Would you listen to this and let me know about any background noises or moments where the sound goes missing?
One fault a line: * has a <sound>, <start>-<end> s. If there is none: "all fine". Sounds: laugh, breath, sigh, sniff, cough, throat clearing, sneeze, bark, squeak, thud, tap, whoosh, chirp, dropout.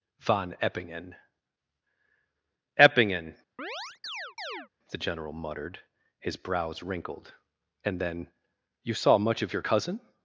* has a chirp, 3.6-4.7 s